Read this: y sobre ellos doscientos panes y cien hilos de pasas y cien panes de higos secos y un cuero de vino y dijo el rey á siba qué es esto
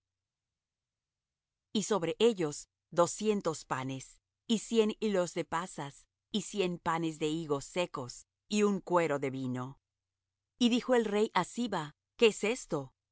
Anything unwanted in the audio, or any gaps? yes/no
no